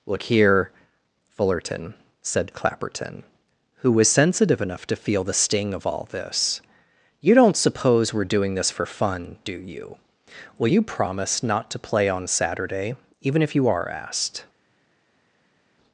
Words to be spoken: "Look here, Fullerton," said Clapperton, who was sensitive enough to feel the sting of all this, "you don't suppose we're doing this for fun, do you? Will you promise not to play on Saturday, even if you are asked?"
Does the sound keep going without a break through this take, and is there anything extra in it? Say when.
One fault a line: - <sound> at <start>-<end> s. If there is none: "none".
none